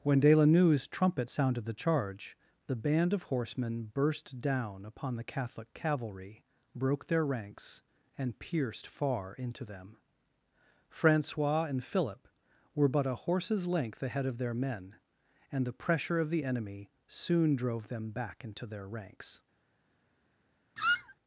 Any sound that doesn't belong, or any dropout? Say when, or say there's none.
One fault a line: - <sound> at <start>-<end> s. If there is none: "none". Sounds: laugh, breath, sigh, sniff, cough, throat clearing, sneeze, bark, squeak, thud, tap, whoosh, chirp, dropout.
- squeak at 20.8-21.2 s